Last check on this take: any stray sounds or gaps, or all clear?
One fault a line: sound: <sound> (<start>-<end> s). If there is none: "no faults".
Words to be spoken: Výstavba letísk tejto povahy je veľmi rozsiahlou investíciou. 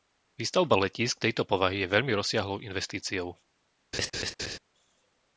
sound: laugh (3.9-4.6 s)